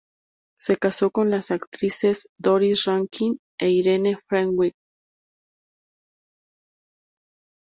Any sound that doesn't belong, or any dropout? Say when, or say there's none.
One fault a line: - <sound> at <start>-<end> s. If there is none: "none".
none